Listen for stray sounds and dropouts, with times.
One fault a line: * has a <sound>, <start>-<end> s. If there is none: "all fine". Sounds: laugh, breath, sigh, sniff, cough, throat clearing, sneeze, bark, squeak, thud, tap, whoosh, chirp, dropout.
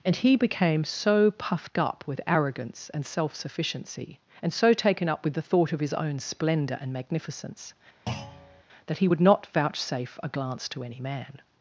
* has a thud, 8.1-8.6 s